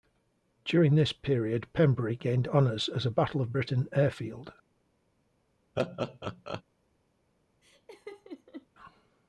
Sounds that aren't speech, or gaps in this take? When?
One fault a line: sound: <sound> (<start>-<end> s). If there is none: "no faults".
sound: laugh (5.8-6.6 s)
sound: laugh (7.6-8.7 s)